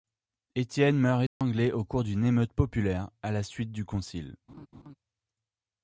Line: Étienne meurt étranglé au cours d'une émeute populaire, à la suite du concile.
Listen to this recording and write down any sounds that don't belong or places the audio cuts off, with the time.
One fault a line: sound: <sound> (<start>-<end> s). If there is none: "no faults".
sound: dropout (1.3-1.4 s)
sound: laugh (4.5-4.9 s)